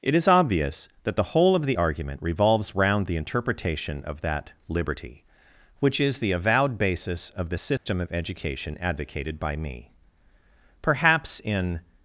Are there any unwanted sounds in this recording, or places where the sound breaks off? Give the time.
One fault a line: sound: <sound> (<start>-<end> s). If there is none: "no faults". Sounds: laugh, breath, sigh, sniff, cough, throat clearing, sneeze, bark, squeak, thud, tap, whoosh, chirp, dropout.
sound: dropout (7.8-7.9 s)